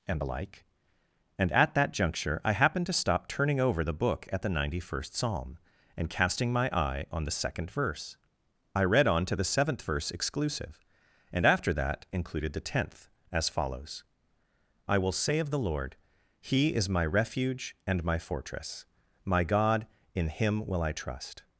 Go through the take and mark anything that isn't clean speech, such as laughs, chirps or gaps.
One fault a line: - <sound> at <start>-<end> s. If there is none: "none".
none